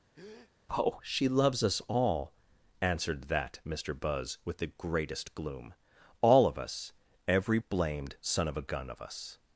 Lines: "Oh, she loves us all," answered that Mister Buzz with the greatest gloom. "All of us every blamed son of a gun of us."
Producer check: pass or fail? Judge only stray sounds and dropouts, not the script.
fail